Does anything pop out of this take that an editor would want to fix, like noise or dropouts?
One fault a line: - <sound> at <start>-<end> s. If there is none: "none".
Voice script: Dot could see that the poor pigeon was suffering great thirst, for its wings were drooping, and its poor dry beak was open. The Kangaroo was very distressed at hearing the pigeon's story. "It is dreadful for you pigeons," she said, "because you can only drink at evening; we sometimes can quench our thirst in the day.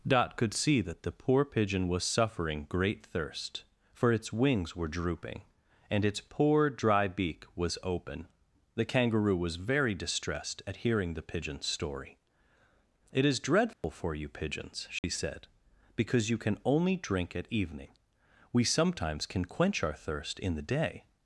- dropout at 13.7-13.8 s
- dropout at 15.0-15.0 s